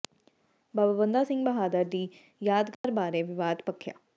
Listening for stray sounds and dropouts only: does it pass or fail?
fail